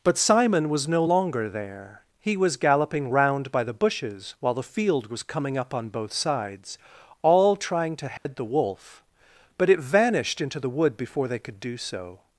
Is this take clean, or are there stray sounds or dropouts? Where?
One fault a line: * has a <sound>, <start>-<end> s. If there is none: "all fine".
* has a dropout, 8.2-8.3 s